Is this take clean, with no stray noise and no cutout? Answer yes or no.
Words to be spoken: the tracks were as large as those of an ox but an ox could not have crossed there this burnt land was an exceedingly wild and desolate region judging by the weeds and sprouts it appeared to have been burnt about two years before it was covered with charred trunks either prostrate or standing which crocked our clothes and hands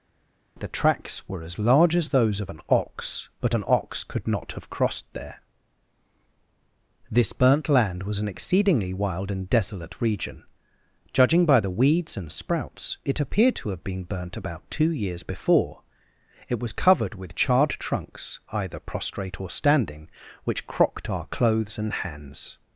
yes